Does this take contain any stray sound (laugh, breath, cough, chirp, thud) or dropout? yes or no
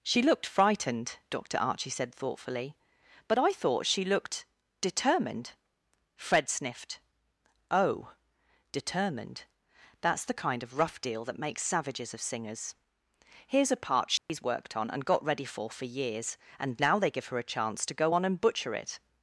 yes